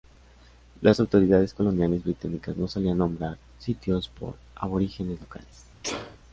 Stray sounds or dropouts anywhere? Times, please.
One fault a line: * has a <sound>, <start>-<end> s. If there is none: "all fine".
* has a sneeze, 5.8-6.2 s